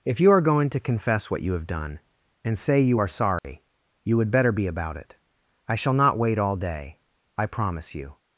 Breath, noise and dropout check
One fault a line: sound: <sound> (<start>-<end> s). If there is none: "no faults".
sound: dropout (3.4-3.4 s)